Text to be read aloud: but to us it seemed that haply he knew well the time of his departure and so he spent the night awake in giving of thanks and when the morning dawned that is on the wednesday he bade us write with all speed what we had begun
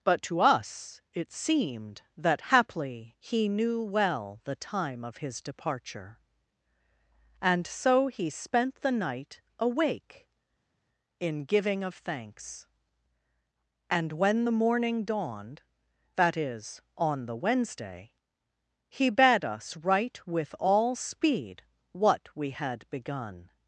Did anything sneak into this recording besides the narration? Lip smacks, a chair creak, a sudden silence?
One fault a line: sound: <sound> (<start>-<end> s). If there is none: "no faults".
no faults